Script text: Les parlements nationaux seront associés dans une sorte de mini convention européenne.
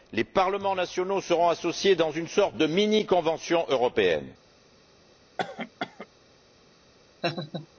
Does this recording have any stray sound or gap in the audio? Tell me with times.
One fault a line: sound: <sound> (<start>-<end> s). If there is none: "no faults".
sound: cough (5.4-6.1 s)
sound: laugh (7.2-7.7 s)